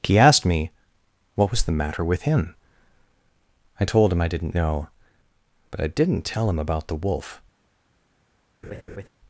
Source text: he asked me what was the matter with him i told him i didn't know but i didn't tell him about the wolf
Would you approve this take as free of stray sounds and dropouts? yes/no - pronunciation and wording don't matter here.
no